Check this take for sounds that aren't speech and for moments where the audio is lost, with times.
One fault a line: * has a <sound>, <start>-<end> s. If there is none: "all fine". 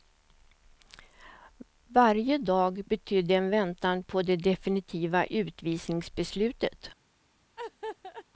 * has a laugh, 7.6-8.2 s